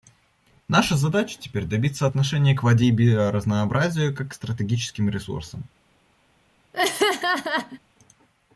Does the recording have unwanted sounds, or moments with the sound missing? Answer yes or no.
yes